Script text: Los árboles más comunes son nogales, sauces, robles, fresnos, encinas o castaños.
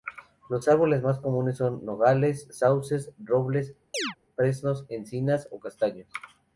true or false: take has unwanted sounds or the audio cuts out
true